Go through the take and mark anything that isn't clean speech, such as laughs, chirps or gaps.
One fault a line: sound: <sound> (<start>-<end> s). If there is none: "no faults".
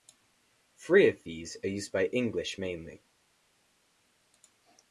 no faults